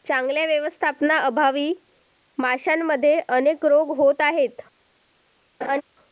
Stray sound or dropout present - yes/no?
yes